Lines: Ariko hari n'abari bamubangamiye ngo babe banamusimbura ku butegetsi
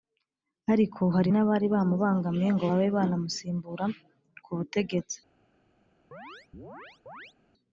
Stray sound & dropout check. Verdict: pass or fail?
fail